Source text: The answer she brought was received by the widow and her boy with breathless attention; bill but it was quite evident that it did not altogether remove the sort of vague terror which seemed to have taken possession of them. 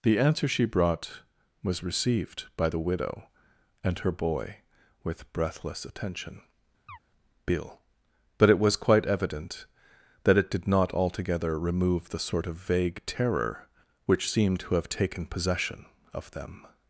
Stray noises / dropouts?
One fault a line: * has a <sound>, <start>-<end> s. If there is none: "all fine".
* has a chirp, 6.9-7.0 s